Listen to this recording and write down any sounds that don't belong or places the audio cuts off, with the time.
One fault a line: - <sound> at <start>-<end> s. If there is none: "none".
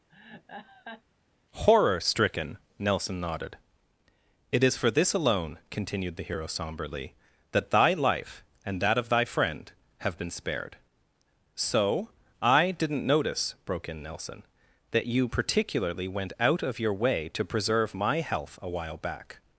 - laugh at 0.1-1.0 s